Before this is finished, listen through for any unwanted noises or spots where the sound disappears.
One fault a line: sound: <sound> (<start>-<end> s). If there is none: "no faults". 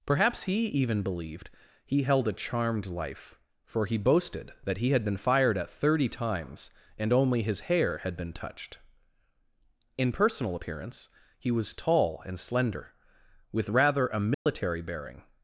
sound: dropout (14.3-14.5 s)